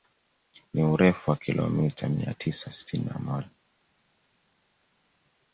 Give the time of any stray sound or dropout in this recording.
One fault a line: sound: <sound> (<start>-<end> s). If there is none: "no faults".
no faults